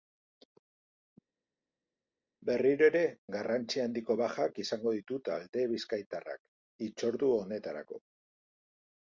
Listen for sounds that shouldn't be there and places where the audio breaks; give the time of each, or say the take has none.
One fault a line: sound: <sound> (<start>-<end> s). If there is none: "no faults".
no faults